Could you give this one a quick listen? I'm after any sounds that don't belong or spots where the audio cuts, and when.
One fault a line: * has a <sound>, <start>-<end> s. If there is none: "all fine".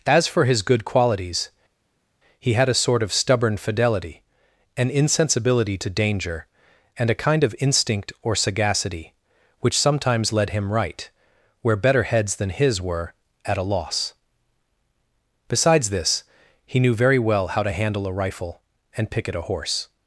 all fine